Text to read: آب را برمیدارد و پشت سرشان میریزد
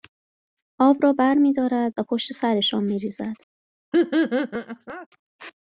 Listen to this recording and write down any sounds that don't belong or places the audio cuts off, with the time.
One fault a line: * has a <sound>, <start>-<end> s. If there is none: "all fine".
* has a laugh, 3.9-5.1 s